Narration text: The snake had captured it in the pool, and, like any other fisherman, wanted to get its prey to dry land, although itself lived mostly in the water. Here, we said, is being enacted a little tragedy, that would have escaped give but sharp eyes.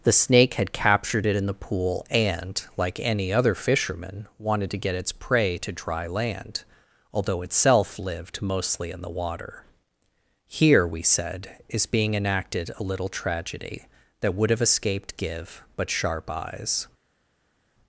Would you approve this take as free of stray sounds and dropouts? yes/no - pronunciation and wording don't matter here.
yes